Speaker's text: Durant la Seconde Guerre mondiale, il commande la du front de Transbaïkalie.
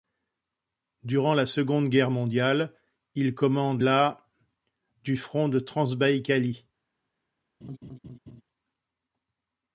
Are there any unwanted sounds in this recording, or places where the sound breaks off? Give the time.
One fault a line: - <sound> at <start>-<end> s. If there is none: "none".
- laugh at 7.6-8.4 s